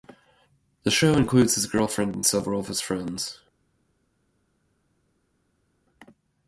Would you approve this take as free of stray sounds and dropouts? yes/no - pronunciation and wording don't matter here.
yes